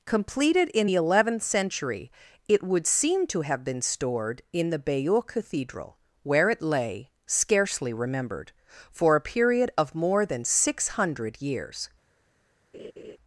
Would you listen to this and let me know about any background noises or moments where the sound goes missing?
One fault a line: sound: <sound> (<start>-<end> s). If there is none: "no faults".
sound: laugh (12.7-13.2 s)